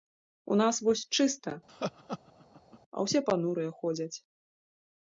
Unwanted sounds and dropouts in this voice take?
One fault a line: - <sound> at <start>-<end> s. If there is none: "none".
- laugh at 1.7-2.8 s